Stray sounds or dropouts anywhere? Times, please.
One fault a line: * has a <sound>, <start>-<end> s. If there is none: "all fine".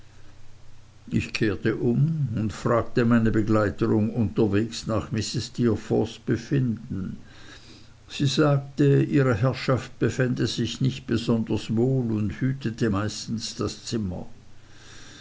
all fine